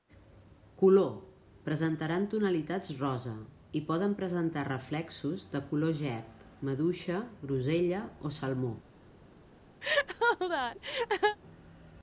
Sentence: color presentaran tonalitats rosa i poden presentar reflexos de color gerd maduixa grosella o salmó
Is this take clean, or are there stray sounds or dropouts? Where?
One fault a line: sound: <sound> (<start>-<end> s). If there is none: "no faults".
sound: laugh (9.8-11.4 s)